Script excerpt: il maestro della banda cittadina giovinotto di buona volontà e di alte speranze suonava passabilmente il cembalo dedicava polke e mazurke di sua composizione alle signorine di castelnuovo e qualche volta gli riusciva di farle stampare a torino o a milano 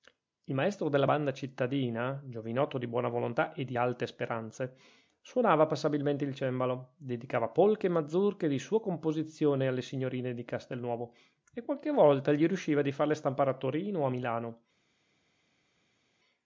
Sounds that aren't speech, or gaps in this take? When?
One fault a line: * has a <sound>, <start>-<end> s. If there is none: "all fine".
all fine